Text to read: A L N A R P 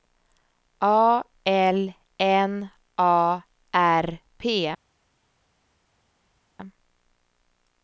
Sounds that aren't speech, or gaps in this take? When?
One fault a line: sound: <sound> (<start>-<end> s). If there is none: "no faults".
no faults